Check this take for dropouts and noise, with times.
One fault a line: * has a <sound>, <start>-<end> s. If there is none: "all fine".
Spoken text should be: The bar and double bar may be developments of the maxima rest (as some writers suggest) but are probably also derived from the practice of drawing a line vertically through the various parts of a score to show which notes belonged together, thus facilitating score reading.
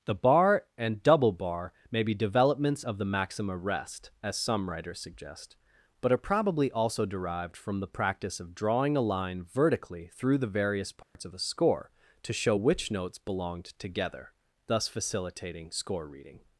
* has a dropout, 11.0-11.2 s